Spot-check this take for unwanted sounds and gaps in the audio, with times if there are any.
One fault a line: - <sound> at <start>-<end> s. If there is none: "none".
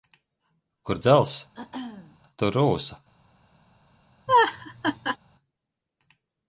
- throat clearing at 1.5-2.2 s
- laugh at 4.3-5.2 s